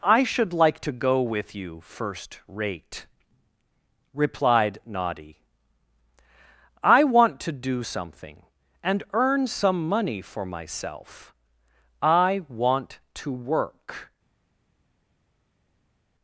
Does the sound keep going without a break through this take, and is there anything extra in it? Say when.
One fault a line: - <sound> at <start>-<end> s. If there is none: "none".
none